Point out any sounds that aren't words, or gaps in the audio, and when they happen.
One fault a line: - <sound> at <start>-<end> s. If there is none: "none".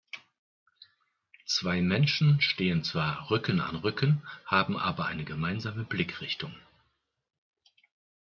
none